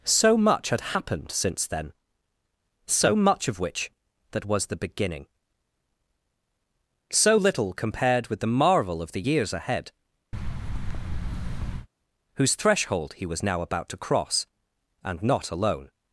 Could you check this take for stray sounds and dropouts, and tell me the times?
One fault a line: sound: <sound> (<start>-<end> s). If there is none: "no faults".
sound: thud (10.3-11.9 s)